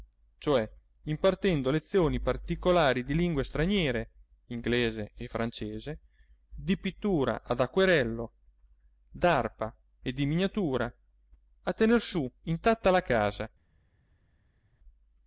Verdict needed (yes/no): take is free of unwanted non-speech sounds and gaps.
yes